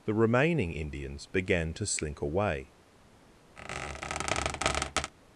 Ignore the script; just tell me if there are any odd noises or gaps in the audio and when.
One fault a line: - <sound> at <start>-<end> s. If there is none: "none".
- squeak at 3.6-5.1 s